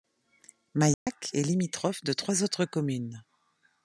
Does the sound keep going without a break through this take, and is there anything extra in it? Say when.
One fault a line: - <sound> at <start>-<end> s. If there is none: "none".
- dropout at 0.9-1.1 s